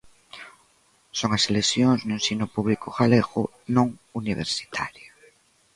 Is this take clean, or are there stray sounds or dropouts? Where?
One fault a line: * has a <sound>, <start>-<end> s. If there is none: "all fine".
all fine